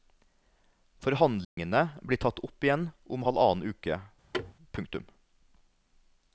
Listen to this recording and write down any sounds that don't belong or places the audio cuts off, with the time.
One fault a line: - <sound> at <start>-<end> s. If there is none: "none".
- dropout at 1.4-1.6 s
- thud at 4.3-4.5 s